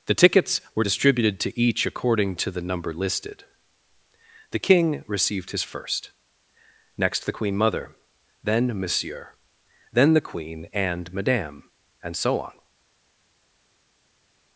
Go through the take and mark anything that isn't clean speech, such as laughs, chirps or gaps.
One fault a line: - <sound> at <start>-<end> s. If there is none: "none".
none